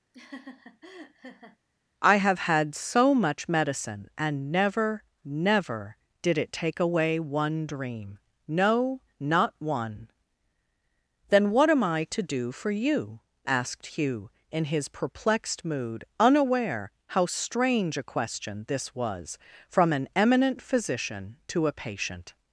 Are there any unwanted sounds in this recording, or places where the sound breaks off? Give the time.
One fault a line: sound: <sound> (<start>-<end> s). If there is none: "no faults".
sound: laugh (0.1-1.6 s)